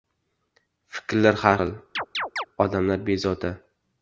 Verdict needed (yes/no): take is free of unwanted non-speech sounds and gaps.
no